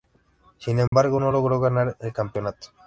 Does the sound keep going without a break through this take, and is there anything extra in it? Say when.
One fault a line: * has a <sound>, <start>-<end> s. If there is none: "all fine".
* has a dropout, 0.9-0.9 s